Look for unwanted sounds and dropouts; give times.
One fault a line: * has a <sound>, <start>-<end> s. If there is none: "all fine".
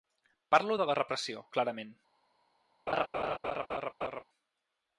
* has a laugh, 2.9-4.2 s